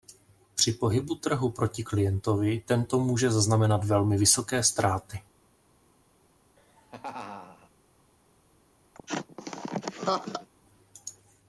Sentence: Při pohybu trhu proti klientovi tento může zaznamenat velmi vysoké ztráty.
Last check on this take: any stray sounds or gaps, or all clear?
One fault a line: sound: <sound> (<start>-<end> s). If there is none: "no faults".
sound: laugh (6.6-7.7 s)
sound: laugh (8.9-10.5 s)